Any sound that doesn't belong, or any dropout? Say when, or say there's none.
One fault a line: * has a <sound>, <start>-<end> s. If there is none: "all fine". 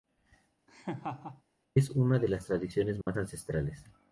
* has a laugh, 0.7-1.4 s
* has a dropout, 3.0-3.1 s